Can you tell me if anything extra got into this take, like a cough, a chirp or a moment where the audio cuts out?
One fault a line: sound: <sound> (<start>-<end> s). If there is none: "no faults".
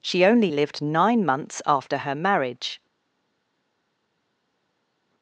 no faults